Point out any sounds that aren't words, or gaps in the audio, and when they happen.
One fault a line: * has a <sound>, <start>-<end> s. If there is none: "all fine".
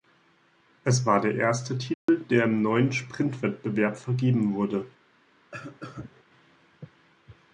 * has a dropout, 1.9-2.1 s
* has a cough, 5.5-6.2 s